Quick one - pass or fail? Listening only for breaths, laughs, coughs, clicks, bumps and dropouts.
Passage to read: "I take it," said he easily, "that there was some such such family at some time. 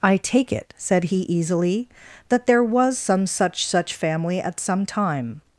pass